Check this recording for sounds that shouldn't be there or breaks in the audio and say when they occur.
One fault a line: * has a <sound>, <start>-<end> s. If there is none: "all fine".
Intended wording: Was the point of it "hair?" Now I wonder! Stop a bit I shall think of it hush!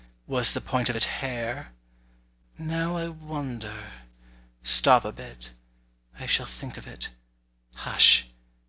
all fine